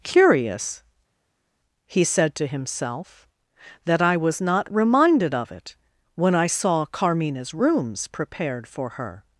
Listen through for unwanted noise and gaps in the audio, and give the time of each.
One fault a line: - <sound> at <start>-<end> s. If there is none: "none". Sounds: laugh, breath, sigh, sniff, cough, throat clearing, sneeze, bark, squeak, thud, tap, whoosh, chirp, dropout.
none